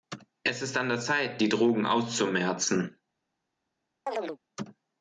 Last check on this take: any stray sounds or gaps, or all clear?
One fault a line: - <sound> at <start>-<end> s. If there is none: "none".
- chirp at 4.1-4.4 s